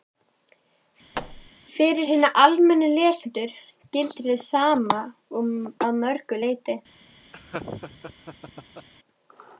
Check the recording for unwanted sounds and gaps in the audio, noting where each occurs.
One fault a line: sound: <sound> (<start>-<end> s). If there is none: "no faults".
sound: thud (1.1-1.5 s)
sound: laugh (7.3-8.9 s)